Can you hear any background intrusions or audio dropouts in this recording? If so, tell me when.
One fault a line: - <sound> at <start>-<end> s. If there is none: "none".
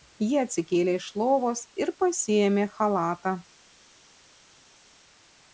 none